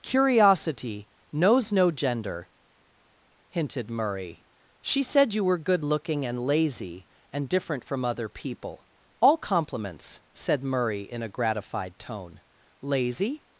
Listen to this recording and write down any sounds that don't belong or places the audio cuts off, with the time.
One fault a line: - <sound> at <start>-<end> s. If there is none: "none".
none